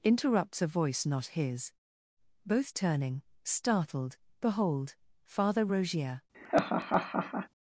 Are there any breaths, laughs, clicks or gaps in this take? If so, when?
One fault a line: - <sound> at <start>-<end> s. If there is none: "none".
- laugh at 6.3-7.5 s